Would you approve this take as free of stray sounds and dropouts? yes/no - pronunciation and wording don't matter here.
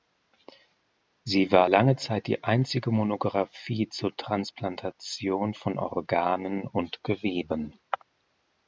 yes